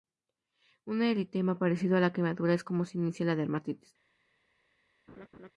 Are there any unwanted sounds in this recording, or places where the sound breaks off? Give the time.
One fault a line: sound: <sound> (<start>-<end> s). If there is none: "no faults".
sound: laugh (5.1-5.5 s)